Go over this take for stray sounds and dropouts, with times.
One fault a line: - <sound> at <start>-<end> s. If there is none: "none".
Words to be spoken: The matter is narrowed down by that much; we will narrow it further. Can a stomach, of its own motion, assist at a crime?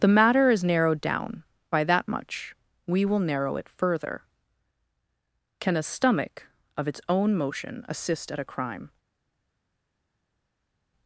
none